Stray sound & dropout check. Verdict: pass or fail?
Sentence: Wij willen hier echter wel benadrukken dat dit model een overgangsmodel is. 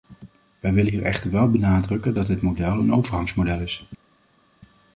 pass